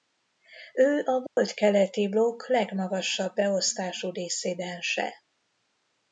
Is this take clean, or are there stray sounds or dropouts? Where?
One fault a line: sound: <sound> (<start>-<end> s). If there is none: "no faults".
sound: dropout (1.3-1.4 s)